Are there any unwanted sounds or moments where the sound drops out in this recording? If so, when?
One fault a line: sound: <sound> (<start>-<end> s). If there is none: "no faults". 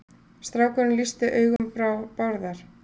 sound: dropout (1.6-1.6 s)